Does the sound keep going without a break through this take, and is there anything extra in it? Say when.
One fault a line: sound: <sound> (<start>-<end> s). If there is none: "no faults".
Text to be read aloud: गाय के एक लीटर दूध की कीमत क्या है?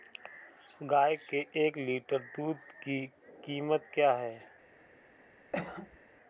sound: cough (5.5-6.0 s)